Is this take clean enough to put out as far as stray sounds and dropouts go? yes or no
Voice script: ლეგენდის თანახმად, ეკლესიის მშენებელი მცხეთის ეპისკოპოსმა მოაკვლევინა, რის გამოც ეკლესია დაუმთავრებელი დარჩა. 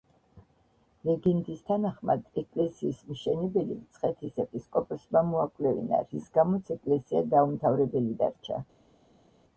yes